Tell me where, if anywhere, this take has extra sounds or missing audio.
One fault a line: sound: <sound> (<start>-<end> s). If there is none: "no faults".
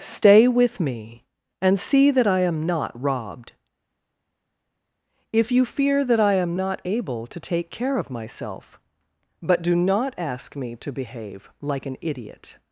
no faults